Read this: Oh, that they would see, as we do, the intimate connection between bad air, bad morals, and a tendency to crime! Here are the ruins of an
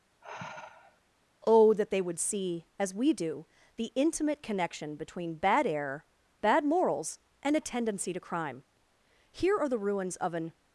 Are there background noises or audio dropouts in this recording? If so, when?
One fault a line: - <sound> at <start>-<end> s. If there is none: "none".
- sigh at 0.2-1.0 s